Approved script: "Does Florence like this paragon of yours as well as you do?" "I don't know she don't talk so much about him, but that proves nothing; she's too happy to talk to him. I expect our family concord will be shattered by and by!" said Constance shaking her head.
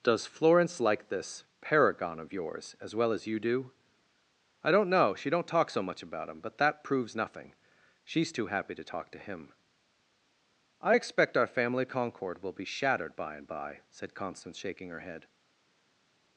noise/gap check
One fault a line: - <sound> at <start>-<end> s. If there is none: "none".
none